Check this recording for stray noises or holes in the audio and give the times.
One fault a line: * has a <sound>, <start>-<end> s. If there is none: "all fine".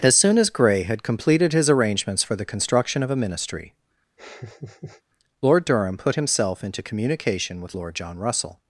* has a laugh, 4.2-5.0 s